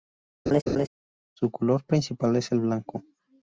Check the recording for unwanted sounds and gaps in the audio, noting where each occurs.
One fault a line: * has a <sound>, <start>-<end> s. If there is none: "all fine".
* has a laugh, 0.5-0.9 s